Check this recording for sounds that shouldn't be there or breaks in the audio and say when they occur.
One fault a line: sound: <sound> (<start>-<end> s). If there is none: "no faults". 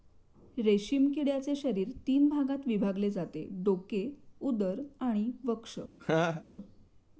sound: laugh (6.0-6.4 s)